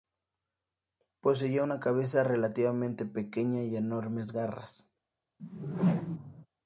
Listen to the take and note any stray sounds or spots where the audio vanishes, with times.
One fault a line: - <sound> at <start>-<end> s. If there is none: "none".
- whoosh at 5.4-6.5 s